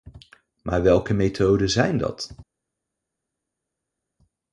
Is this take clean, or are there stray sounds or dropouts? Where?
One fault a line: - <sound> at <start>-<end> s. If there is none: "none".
none